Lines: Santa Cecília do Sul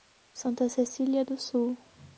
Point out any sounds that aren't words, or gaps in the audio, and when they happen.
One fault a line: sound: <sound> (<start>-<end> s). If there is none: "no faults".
no faults